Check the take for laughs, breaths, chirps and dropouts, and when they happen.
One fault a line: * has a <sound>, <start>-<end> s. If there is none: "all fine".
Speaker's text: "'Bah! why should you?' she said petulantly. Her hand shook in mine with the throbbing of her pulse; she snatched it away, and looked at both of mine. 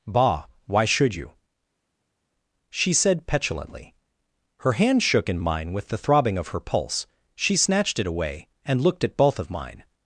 all fine